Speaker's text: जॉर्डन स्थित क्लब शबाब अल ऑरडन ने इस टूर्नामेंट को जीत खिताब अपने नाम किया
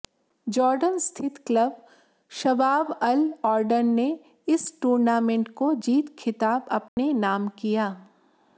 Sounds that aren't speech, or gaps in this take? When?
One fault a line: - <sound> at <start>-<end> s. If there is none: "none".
- dropout at 6.9-7.0 s